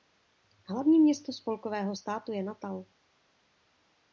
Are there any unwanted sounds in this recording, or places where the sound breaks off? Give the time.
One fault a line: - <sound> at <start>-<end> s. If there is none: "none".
none